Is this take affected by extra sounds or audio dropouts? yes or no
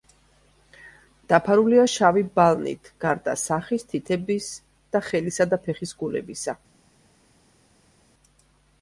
no